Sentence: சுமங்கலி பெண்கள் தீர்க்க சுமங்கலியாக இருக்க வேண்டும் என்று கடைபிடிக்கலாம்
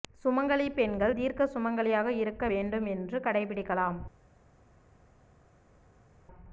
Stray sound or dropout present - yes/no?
no